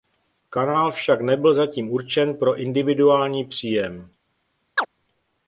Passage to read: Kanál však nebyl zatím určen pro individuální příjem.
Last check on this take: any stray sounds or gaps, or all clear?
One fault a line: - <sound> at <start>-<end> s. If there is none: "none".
- chirp at 4.8-4.9 s